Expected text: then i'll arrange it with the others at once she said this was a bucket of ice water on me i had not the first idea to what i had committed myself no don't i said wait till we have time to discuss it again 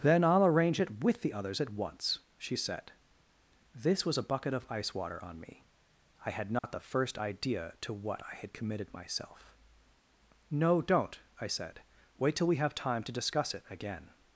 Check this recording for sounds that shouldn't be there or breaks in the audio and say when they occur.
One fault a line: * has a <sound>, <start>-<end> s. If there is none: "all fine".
* has a dropout, 6.6-6.6 s